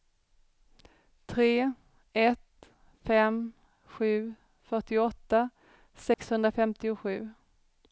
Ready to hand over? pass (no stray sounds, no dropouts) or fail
fail